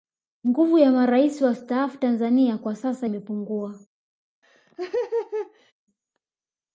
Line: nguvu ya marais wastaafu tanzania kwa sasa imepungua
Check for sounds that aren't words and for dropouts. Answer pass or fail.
fail